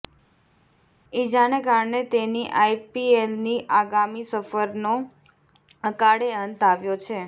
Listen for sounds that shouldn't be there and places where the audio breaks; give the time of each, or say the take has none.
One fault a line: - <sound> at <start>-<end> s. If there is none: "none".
none